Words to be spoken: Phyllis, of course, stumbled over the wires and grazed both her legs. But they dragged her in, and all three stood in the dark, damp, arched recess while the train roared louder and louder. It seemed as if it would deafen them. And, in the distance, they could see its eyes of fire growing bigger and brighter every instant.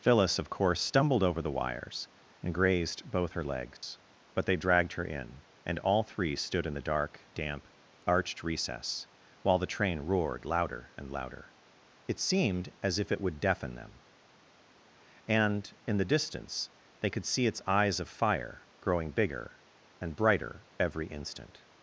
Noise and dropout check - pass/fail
fail